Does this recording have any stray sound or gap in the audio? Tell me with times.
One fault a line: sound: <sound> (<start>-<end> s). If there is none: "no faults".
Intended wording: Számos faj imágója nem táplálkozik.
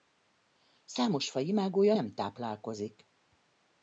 no faults